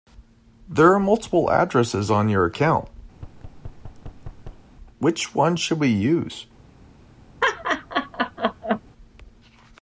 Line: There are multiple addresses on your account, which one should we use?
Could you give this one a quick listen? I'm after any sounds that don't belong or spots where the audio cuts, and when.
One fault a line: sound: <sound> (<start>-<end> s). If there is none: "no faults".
sound: thud (3.1-4.7 s)
sound: laugh (7.4-8.8 s)